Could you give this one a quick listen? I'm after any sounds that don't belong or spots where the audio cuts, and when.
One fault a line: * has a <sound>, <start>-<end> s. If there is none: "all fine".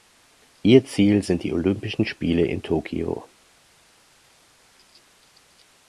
all fine